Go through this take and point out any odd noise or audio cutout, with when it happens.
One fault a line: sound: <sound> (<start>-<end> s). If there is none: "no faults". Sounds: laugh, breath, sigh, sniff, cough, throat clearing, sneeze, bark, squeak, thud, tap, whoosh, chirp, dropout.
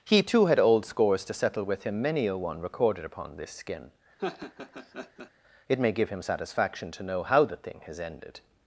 sound: laugh (4.2-5.3 s)